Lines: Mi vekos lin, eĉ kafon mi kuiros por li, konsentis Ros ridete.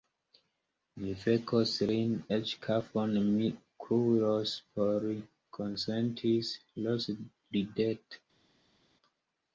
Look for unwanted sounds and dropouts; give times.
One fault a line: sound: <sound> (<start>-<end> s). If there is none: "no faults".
no faults